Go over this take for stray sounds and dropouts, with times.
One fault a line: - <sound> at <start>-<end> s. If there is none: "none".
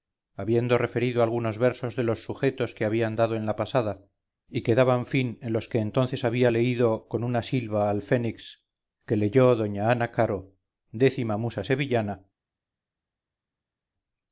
none